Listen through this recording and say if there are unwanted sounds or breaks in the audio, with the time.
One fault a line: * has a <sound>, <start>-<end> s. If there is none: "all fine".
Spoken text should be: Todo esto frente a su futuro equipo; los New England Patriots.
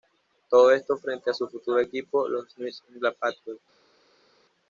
all fine